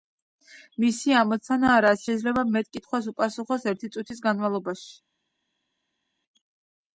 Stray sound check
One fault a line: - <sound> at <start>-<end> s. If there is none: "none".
none